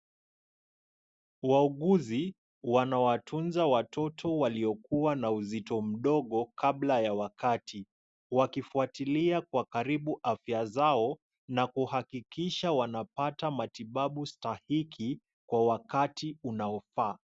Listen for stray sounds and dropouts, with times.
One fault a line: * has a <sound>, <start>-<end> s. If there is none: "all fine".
all fine